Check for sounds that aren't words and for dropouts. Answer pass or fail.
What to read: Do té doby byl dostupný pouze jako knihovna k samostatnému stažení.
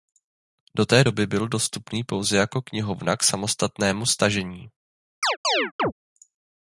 fail